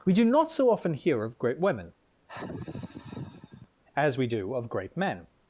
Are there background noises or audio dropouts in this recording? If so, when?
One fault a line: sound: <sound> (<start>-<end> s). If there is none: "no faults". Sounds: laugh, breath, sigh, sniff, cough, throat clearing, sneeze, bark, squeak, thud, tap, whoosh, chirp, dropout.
sound: sigh (2.3-3.7 s)